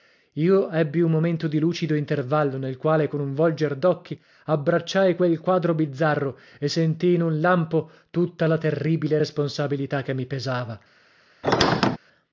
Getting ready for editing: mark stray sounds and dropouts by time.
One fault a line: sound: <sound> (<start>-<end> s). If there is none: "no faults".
sound: squeak (11.4-12.0 s)